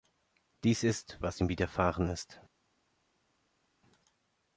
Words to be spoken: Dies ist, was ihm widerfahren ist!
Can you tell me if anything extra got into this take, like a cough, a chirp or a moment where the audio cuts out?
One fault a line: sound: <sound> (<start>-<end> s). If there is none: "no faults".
no faults